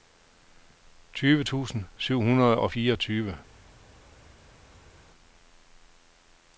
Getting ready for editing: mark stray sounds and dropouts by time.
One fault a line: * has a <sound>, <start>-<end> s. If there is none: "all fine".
all fine